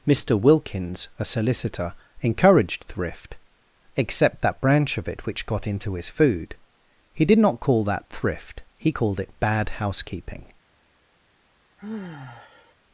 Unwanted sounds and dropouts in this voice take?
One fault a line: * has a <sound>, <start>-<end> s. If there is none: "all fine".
* has a sigh, 11.8-12.7 s